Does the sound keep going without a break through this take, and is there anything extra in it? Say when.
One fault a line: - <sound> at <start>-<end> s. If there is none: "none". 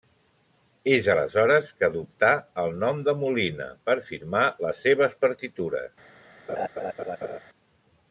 - laugh at 6.5-7.4 s